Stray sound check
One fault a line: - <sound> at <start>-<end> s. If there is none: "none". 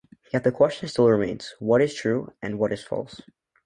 none